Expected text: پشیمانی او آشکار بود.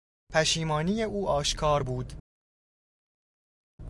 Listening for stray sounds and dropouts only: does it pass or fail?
pass